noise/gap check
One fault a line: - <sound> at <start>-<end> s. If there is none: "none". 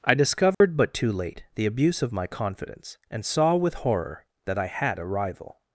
- dropout at 0.5-0.6 s